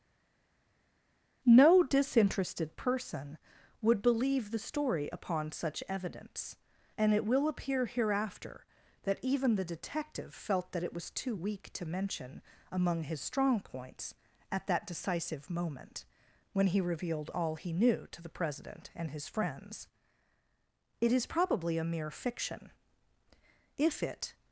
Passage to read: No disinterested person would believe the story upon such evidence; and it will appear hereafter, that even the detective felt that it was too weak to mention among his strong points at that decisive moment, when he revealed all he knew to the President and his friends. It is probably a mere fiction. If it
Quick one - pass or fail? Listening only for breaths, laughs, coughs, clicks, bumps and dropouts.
pass